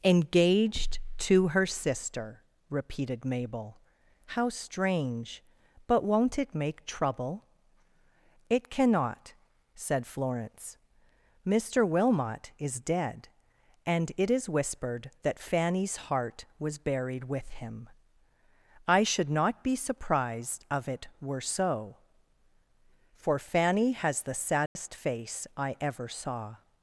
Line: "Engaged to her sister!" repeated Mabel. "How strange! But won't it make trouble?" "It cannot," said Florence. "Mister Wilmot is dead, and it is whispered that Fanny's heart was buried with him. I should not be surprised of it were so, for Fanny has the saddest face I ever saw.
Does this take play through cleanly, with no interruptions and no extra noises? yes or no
no